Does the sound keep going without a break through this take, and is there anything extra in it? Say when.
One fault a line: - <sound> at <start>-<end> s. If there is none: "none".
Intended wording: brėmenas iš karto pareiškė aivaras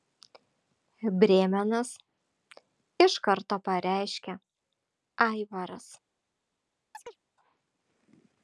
- chirp at 6.9-7.2 s